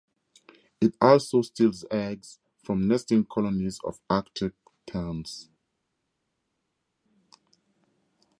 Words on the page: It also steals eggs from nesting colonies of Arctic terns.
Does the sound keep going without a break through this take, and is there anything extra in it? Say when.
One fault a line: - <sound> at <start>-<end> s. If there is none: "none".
none